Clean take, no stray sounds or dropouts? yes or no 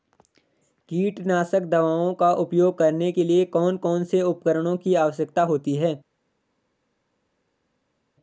yes